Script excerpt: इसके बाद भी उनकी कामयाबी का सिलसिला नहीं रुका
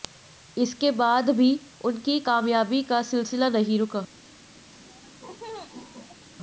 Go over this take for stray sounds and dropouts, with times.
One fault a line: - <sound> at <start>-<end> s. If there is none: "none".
- laugh at 4.7-6.3 s